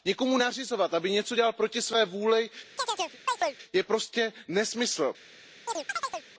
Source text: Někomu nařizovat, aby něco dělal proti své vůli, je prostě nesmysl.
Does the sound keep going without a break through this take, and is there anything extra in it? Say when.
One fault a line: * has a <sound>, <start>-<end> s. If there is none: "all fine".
* has a chirp, 2.8-3.6 s
* has a chirp, 5.7-6.3 s